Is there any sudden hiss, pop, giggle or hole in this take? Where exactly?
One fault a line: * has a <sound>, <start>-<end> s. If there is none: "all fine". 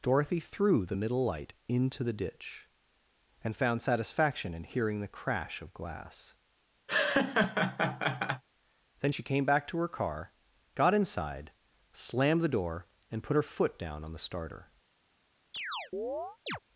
* has a laugh, 6.9-8.4 s
* has a chirp, 15.5-16.6 s